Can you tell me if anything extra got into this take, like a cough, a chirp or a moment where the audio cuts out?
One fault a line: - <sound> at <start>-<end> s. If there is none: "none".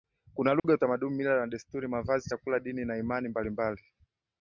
- dropout at 0.6-0.6 s